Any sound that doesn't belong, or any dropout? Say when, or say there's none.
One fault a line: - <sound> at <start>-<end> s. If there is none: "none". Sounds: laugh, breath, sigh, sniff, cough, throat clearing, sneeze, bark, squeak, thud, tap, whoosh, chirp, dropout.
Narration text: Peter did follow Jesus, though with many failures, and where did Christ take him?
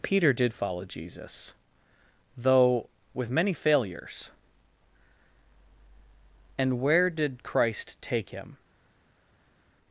none